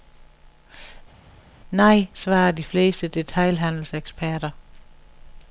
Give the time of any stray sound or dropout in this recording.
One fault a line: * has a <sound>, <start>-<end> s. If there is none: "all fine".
all fine